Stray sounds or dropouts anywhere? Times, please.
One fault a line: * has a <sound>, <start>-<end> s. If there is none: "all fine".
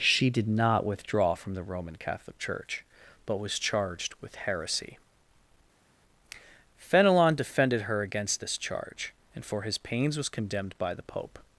all fine